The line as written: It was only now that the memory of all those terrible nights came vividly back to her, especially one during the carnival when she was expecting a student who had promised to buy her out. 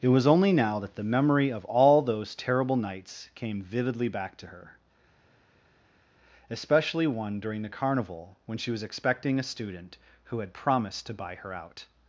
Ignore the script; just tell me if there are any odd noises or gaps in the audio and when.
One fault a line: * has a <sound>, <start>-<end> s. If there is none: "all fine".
all fine